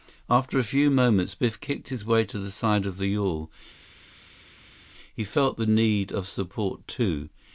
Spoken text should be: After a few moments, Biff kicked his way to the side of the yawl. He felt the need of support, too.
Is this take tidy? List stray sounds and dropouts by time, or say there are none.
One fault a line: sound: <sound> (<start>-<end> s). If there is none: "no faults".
no faults